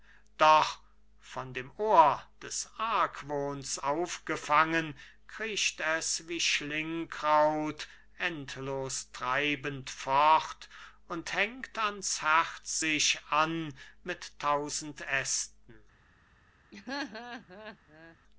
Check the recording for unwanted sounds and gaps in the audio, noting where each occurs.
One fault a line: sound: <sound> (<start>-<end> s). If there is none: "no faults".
sound: laugh (16.7-18.2 s)